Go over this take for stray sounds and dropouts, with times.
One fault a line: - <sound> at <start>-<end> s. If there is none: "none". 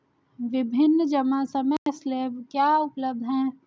- dropout at 1.8-1.9 s